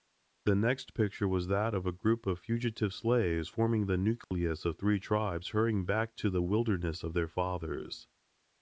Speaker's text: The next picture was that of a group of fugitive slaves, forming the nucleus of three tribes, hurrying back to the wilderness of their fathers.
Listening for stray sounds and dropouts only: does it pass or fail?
fail